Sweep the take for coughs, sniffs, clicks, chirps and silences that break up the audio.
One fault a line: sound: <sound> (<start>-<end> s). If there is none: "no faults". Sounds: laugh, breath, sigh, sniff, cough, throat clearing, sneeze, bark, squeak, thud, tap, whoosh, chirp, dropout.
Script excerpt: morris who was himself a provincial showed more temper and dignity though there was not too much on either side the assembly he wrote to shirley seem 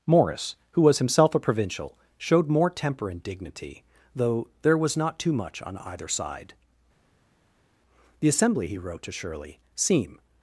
no faults